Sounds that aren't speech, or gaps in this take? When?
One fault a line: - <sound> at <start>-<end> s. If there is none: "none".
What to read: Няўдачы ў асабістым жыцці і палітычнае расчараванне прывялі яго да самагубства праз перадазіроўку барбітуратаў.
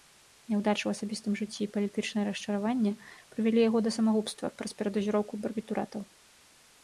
none